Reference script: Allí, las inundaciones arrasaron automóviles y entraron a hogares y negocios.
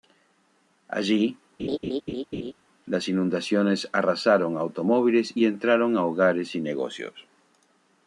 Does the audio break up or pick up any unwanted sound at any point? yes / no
yes